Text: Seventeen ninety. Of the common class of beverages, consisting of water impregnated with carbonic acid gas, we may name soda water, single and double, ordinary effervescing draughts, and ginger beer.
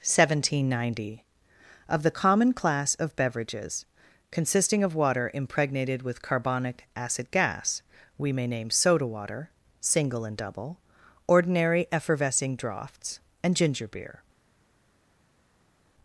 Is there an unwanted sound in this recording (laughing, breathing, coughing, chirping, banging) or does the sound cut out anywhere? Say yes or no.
no